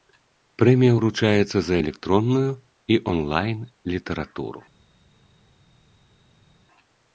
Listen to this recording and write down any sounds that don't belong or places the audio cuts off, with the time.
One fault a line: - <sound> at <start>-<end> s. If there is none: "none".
none